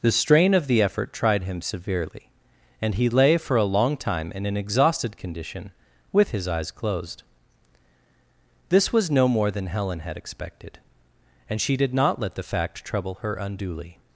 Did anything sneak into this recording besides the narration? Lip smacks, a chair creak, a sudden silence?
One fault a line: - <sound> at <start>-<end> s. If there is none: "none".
none